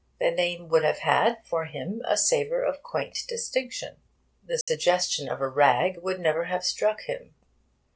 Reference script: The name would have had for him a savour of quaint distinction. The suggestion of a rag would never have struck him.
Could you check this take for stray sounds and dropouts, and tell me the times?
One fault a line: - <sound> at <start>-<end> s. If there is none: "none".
- dropout at 4.6-4.7 s